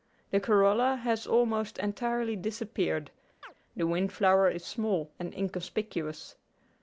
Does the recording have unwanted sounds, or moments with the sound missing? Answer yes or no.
yes